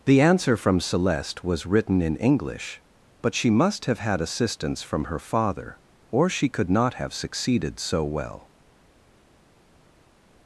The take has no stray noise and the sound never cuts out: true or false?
true